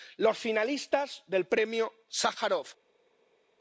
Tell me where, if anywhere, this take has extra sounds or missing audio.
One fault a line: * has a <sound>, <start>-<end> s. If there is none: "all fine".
all fine